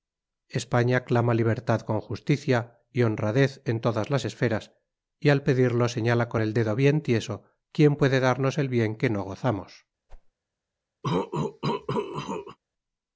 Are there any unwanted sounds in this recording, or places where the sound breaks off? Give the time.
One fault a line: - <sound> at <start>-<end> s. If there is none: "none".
- whoosh at 10.1-10.3 s
- cough at 11.0-12.6 s